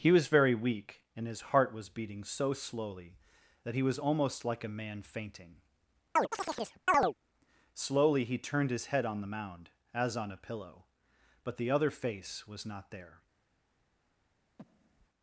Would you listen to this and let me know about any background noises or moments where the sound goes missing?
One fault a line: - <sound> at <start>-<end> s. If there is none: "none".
- chirp at 6.2-7.1 s
- breath at 14.6-15.1 s